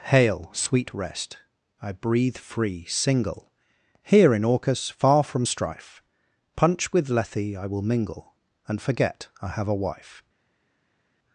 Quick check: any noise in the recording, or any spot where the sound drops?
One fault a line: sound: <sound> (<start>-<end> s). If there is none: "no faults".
no faults